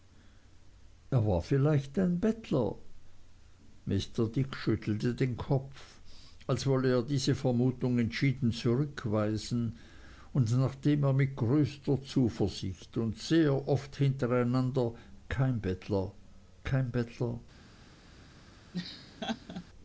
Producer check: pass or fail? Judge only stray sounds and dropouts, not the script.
fail